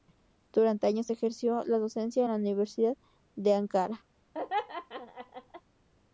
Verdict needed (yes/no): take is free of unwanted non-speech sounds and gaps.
no